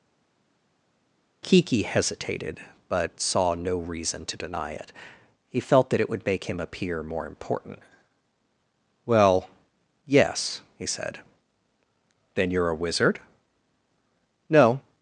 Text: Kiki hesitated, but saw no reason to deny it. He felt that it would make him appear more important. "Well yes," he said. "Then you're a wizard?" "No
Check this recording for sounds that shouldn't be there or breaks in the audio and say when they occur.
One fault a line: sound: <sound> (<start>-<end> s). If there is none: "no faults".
no faults